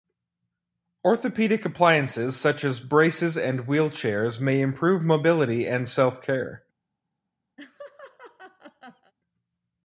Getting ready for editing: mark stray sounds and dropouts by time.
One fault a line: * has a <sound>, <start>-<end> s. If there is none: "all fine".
* has a laugh, 7.6-9.1 s